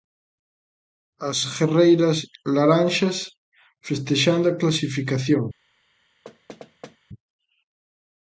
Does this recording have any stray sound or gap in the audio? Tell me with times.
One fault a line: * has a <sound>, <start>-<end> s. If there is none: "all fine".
* has a thud, 6.2-7.0 s